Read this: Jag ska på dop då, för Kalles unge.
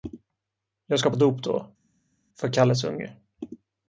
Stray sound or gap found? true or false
false